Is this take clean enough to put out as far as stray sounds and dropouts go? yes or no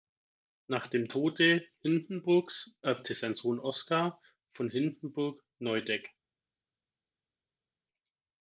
yes